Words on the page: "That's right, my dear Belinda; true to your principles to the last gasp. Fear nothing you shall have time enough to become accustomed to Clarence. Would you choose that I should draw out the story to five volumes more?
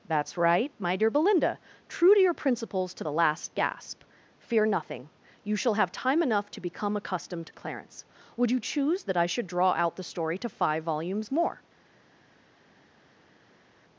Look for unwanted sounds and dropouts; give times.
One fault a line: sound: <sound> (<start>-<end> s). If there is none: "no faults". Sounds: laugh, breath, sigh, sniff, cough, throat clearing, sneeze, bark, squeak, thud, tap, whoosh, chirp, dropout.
no faults